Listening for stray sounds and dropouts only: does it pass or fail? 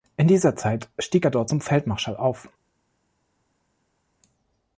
pass